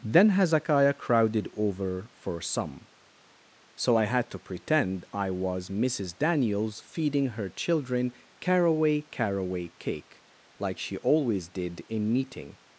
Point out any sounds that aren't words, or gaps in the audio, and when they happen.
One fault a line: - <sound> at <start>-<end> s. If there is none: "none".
none